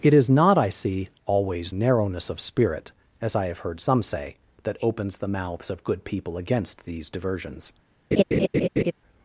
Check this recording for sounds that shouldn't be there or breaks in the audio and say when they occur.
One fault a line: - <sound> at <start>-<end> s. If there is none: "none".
- laugh at 8.1-8.9 s